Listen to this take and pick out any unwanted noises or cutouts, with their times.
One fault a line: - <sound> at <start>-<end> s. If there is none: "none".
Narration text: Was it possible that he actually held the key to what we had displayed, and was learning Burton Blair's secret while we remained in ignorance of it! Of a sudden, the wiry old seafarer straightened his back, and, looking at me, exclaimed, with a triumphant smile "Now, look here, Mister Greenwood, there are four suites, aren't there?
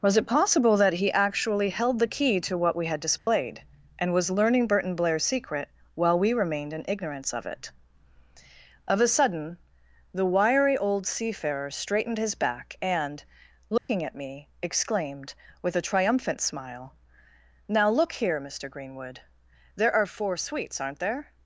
- dropout at 3.2-3.3 s
- dropout at 13.8-13.9 s